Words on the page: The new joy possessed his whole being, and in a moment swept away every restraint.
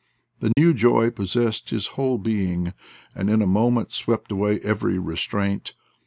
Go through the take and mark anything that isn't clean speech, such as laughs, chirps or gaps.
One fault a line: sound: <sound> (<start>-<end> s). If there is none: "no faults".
sound: dropout (0.5-0.6 s)